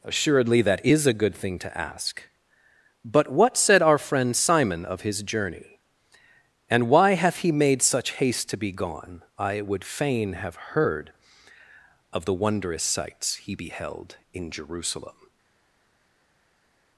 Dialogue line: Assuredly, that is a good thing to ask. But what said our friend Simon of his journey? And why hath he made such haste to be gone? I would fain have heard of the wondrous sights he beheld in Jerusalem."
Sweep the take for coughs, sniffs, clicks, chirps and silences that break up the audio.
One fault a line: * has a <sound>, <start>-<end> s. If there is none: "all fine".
all fine